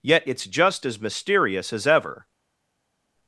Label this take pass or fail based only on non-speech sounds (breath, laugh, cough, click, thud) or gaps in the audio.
pass